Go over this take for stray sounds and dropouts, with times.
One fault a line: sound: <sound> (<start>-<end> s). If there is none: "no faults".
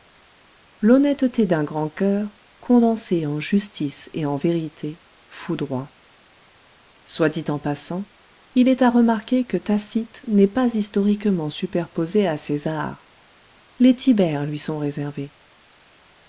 no faults